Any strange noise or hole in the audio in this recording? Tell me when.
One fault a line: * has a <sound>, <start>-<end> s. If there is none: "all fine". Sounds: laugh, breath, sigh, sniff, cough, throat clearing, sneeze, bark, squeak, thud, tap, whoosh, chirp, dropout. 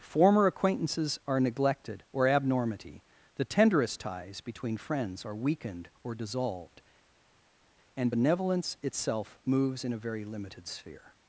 all fine